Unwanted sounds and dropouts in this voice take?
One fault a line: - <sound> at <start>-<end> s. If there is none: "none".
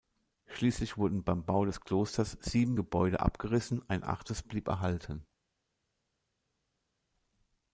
none